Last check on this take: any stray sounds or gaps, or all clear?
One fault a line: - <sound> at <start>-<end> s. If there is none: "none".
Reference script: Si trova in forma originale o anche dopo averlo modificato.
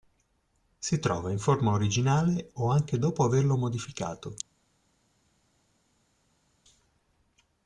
none